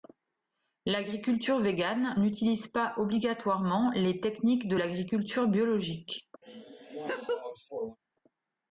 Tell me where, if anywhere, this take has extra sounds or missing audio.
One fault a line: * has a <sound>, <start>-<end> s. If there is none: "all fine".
* has a laugh, 6.4-8.0 s